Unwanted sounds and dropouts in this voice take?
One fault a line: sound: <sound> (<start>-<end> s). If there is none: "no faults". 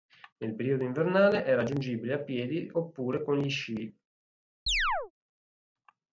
sound: chirp (4.7-5.1 s)